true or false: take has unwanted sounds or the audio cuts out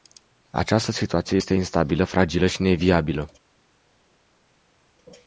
false